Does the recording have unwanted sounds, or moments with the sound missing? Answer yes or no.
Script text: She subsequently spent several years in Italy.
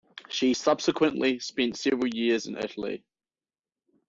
no